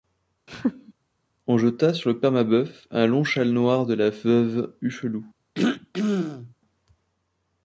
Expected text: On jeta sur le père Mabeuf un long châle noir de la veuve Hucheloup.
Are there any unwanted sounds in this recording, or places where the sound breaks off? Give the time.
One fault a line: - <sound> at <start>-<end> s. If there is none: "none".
- laugh at 0.5-0.9 s
- throat clearing at 5.6-6.5 s